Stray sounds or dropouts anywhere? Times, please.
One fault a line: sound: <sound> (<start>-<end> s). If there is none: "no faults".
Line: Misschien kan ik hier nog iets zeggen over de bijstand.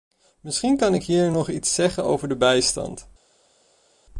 no faults